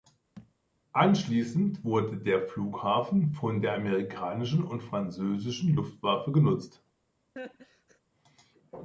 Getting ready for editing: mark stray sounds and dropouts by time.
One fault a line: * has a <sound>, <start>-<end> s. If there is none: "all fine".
* has a thud, 0.4-0.5 s
* has a laugh, 7.4-8.0 s